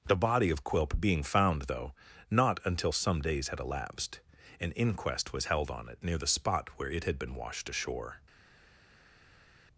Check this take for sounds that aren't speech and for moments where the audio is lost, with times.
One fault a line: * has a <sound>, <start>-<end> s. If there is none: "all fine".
all fine